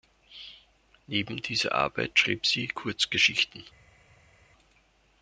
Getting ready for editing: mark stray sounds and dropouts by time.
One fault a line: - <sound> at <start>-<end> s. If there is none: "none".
none